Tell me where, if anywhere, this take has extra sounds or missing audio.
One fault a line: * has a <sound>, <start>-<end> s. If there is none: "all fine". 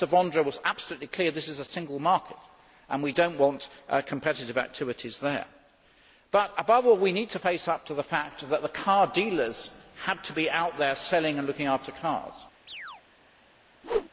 * has a chirp, 12.7-13.0 s
* has a whoosh, 13.8-14.1 s